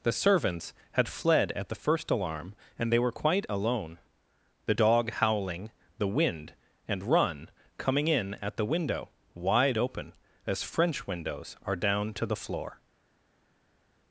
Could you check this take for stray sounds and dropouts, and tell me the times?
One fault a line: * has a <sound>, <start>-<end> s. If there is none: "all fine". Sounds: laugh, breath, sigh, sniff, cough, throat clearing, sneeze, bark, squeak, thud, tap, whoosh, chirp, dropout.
all fine